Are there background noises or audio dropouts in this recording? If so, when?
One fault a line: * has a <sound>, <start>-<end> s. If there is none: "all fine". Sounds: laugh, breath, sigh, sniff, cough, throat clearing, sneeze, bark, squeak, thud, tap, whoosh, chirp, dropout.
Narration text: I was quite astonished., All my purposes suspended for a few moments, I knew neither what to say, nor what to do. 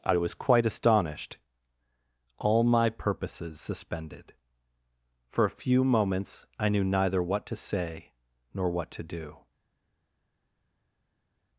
all fine